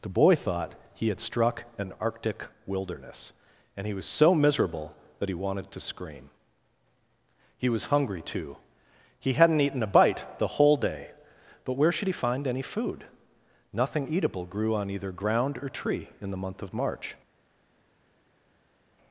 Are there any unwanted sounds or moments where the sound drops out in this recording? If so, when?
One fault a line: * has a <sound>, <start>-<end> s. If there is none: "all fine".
all fine